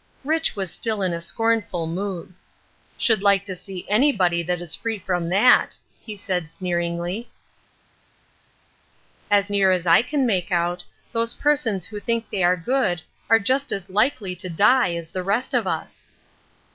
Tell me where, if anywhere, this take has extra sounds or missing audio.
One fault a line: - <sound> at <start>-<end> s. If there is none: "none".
none